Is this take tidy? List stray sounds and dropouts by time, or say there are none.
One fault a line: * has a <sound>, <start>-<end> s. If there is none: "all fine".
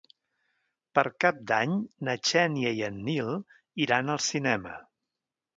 all fine